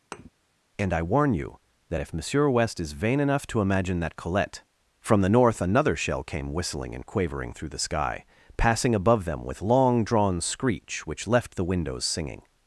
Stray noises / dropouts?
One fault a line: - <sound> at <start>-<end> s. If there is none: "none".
- thud at 0.1-0.3 s